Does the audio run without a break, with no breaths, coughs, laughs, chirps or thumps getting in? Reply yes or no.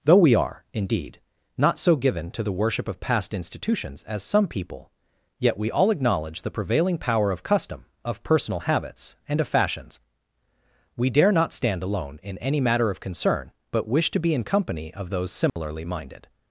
no